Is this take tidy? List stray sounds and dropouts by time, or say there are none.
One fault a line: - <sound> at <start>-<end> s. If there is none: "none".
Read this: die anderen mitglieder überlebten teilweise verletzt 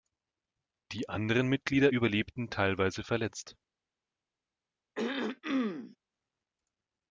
- throat clearing at 4.9-6.0 s